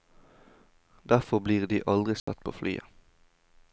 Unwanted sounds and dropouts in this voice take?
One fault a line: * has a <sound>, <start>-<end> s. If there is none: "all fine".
* has a dropout, 2.2-2.3 s